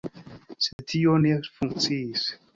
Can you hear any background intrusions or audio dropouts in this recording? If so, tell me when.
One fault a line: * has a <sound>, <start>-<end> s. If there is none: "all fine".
* has a dropout, 0.7-0.8 s